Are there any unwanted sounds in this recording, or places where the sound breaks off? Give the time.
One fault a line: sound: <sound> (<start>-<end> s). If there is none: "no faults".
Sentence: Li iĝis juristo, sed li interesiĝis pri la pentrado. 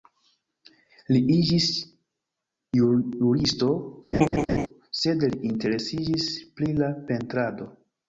sound: laugh (4.1-4.7 s)